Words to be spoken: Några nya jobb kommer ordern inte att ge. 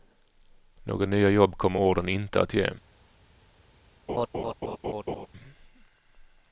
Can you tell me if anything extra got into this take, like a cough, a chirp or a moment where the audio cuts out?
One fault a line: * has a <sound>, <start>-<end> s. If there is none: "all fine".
* has a laugh, 4.1-5.3 s